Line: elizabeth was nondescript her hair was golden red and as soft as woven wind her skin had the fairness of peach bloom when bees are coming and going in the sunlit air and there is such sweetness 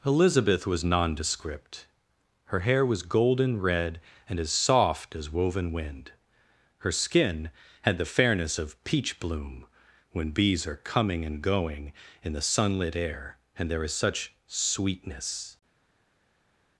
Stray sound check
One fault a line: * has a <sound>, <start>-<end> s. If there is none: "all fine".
all fine